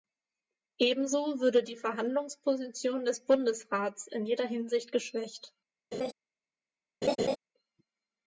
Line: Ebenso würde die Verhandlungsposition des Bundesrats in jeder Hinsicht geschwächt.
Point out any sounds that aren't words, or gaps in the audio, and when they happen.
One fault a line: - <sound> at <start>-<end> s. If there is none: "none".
- laugh at 5.9-6.1 s
- laugh at 7.0-7.4 s